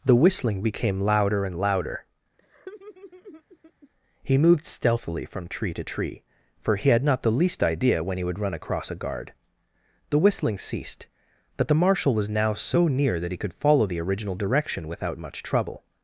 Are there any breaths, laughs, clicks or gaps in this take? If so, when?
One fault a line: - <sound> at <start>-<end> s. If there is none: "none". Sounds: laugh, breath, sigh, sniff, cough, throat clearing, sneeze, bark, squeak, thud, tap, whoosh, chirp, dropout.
- laugh at 2.4-3.9 s